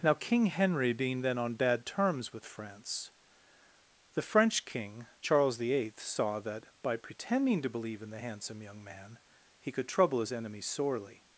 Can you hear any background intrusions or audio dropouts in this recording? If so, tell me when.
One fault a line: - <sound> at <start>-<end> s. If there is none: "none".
none